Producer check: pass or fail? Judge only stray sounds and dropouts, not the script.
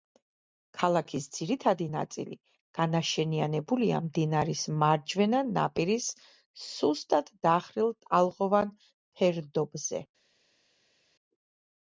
pass